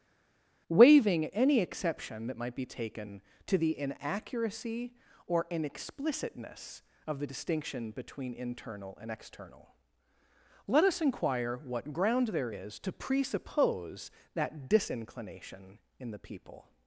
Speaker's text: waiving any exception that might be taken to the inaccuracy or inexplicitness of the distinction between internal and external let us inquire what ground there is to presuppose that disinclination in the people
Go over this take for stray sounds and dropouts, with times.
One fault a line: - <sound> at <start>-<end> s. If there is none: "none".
none